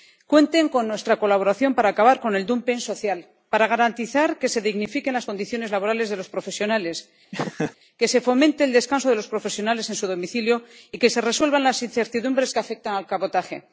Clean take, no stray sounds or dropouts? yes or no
no